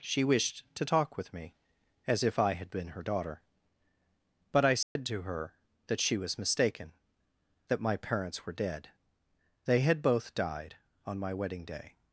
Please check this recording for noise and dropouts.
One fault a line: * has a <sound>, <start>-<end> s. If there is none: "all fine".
* has a dropout, 4.8-5.0 s